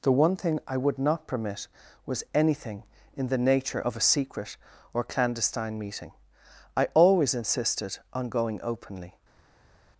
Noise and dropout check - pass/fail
pass